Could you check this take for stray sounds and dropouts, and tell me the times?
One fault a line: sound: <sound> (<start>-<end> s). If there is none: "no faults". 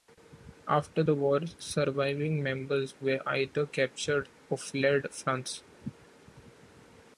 no faults